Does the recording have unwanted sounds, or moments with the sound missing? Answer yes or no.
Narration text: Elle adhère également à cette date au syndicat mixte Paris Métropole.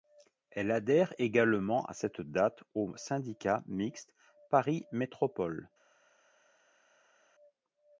no